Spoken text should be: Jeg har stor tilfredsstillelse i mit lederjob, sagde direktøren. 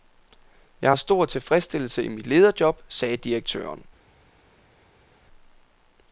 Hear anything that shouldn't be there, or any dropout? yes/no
no